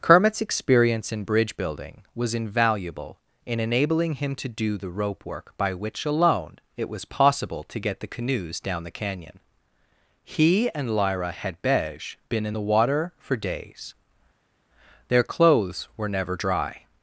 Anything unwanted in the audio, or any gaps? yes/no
no